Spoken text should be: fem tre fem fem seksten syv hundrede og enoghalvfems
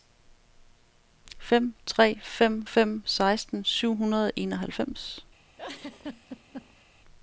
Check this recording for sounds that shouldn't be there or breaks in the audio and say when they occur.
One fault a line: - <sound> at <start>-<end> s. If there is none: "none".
- laugh at 5.6-6.8 s